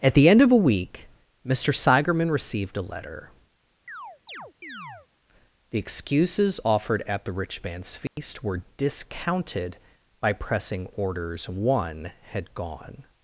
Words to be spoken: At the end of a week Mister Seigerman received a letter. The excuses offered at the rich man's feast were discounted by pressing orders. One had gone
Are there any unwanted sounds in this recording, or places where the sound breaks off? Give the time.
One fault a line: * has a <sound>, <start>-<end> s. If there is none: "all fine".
* has a chirp, 3.9-5.1 s
* has a dropout, 8.1-8.2 s